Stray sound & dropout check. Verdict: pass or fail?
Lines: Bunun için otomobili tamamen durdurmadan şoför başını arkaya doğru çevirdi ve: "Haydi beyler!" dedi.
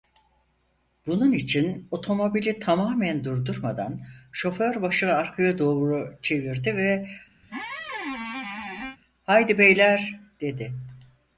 fail